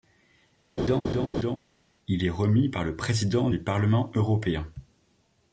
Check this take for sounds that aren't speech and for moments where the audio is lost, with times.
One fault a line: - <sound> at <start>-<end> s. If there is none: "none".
- laugh at 0.8-1.6 s